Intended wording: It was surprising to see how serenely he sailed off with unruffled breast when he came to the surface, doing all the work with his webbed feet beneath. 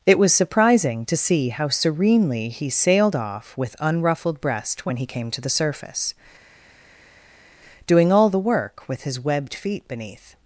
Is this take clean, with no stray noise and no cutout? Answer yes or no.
yes